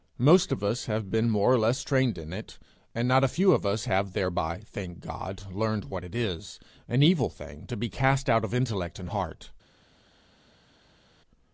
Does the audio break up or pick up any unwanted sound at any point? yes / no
no